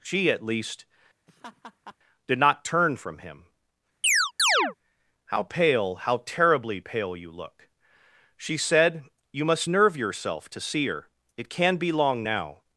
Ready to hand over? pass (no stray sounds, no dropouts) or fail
fail